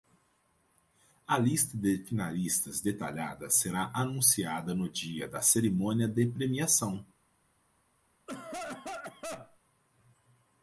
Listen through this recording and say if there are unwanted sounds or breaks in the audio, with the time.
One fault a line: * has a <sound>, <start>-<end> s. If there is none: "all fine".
* has a cough, 8.3-9.6 s